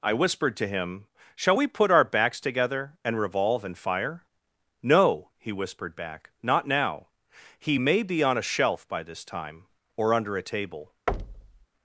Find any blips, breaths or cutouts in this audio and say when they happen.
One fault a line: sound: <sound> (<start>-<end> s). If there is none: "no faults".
sound: thud (11.1-11.7 s)